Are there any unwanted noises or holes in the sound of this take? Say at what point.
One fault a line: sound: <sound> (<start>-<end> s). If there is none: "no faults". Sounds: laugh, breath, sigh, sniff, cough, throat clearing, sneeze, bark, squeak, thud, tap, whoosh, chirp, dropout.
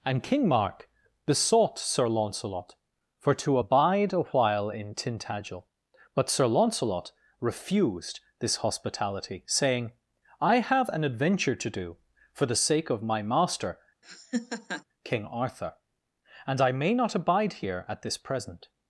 sound: laugh (14.0-14.8 s)